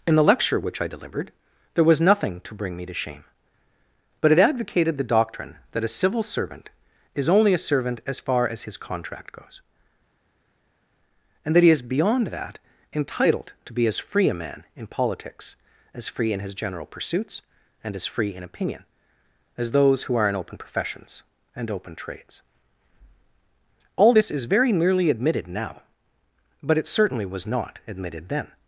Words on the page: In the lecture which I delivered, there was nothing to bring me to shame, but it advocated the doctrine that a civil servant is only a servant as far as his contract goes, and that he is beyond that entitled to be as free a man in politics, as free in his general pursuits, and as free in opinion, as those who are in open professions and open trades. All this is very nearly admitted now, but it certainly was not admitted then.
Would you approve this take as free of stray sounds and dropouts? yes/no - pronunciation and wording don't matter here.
yes